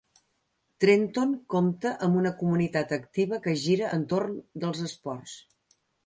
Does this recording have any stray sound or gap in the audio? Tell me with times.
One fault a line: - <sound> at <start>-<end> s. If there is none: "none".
none